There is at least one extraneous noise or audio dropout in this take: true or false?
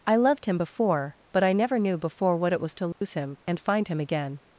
true